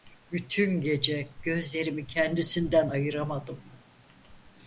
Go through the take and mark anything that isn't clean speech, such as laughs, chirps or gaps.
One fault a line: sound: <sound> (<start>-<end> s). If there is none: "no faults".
no faults